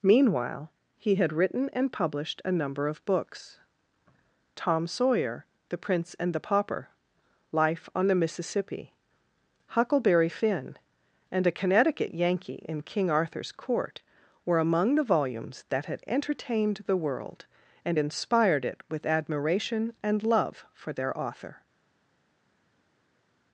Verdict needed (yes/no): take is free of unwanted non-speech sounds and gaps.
yes